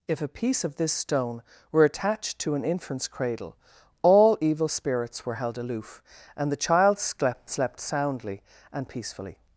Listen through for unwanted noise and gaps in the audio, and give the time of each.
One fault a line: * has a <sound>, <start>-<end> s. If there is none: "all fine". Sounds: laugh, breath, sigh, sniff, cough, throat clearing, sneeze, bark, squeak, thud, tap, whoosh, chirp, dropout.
all fine